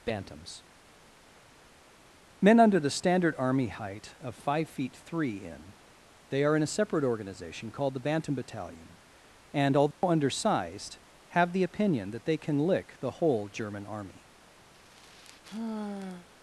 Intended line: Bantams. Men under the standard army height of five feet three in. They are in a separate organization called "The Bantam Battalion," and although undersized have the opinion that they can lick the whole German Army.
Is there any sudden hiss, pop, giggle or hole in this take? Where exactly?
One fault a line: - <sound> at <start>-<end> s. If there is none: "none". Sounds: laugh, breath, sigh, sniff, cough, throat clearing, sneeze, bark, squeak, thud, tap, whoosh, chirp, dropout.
- dropout at 9.9-10.0 s
- sigh at 14.7-16.3 s